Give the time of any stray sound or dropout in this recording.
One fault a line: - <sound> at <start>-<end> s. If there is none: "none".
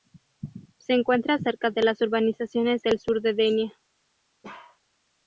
- bark at 4.4-4.8 s